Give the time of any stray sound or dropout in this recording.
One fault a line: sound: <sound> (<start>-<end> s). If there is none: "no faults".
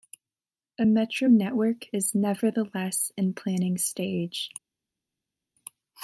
no faults